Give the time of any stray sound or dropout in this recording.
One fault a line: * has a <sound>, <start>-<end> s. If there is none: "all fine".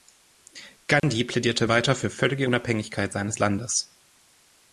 * has a dropout, 1.0-1.0 s